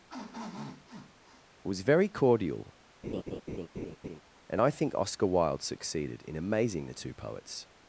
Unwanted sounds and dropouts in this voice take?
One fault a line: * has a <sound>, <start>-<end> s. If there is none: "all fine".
* has a sniff, 0.1-1.4 s
* has a laugh, 3.0-4.2 s